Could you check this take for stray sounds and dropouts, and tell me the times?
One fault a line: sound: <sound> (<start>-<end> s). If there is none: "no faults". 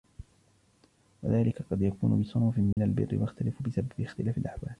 sound: dropout (2.7-2.8 s)